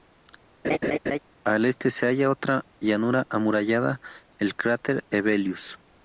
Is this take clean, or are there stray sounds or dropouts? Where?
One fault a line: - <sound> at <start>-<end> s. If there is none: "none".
- laugh at 0.6-1.2 s